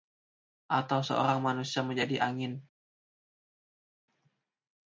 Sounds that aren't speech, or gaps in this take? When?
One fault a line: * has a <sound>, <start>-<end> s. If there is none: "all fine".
all fine